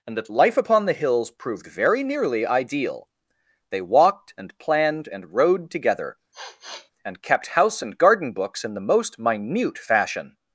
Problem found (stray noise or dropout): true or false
true